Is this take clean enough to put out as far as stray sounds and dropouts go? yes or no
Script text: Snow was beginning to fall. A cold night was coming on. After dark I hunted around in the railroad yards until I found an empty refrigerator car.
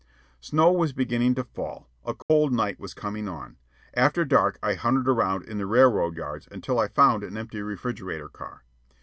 no